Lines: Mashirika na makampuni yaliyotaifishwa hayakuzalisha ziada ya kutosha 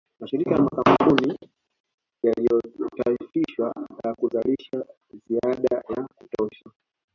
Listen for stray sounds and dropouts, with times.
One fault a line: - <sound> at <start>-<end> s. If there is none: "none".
none